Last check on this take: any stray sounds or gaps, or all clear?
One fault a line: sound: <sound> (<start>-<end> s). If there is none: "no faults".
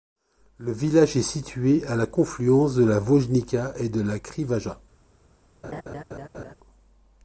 sound: laugh (5.6-6.5 s)